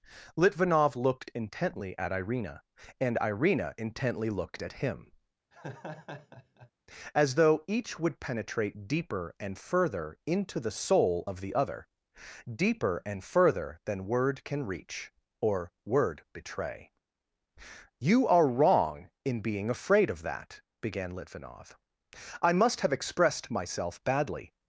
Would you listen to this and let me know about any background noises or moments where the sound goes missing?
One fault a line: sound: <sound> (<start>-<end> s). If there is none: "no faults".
sound: laugh (5.5-6.7 s)